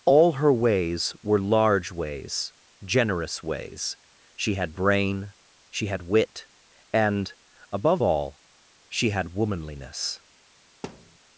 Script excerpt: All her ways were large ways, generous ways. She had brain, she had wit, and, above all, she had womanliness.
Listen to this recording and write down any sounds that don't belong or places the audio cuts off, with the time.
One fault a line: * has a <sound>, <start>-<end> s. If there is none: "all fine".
* has a thud, 10.8-11.2 s